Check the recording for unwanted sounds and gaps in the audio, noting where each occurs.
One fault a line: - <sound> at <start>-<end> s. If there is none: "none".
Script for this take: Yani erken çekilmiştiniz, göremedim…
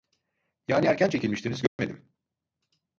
- dropout at 1.7-1.8 s